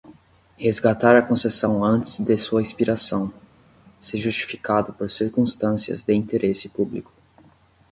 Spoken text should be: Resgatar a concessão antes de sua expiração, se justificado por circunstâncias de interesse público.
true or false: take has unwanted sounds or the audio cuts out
false